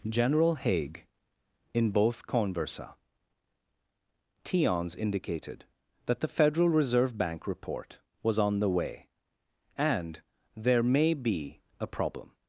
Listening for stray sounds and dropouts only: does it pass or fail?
pass